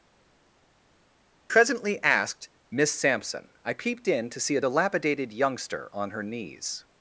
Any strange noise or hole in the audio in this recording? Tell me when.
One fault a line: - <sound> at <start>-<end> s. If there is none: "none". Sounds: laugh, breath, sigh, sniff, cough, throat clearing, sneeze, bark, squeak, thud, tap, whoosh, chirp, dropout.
none